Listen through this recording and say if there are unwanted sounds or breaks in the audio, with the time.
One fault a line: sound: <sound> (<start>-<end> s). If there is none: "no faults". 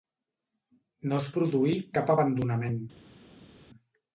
no faults